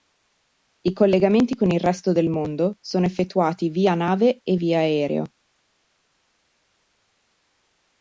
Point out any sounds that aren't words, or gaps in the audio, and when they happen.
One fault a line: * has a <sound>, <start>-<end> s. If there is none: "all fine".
all fine